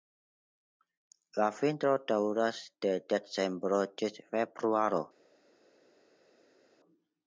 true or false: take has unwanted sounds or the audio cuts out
false